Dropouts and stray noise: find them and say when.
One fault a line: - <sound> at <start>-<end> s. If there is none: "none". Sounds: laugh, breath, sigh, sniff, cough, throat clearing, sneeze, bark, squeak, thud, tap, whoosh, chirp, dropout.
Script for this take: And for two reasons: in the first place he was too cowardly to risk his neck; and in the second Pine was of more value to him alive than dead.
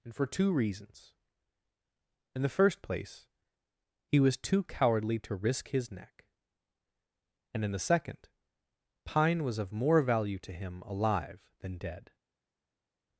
none